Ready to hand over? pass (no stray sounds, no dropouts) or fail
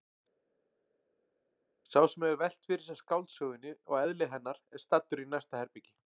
pass